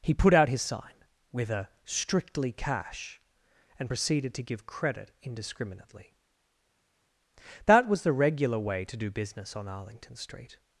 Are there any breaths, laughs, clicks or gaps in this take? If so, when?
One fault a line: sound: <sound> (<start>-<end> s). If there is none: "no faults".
no faults